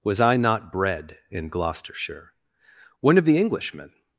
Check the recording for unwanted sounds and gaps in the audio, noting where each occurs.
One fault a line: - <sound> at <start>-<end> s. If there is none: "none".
none